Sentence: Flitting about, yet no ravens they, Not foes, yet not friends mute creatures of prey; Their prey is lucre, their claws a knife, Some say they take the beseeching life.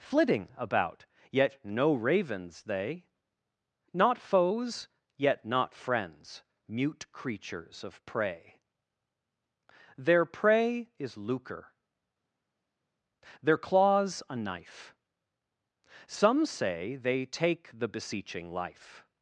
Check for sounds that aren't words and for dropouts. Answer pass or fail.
pass